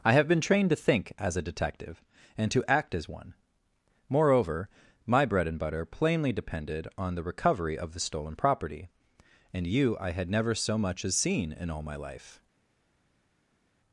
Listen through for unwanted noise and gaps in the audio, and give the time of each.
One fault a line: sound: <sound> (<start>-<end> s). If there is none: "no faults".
no faults